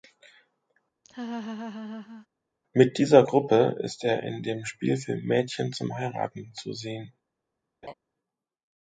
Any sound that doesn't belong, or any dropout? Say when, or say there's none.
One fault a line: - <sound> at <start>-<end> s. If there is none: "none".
- laugh at 1.0-2.3 s
- laugh at 7.8-7.9 s